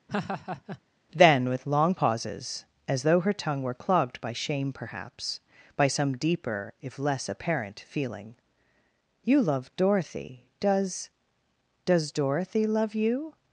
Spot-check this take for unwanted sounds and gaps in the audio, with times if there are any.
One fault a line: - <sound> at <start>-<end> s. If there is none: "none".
- laugh at 0.1-0.8 s